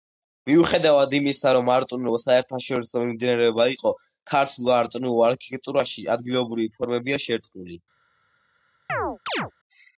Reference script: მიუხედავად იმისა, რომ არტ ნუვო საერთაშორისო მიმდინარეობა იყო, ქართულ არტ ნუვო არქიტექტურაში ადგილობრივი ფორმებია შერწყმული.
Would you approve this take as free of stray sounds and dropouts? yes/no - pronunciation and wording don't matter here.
no